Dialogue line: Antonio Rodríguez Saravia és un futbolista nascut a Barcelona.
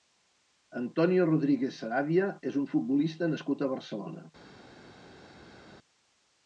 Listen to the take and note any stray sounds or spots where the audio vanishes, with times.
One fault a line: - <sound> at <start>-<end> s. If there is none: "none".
none